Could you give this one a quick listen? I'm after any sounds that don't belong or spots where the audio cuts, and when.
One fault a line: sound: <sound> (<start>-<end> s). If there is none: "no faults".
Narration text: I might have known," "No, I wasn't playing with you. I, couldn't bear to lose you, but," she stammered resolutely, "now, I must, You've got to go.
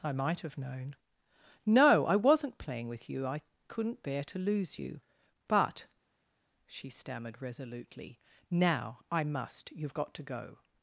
no faults